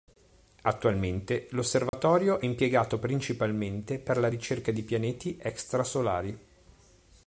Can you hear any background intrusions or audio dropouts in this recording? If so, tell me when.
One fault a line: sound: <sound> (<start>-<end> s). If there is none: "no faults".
sound: dropout (1.9-1.9 s)